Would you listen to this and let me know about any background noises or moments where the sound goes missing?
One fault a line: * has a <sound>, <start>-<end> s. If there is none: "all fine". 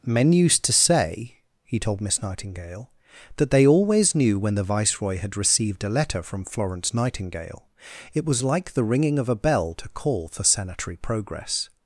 all fine